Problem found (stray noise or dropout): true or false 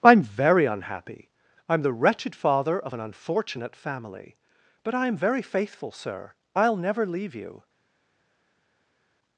false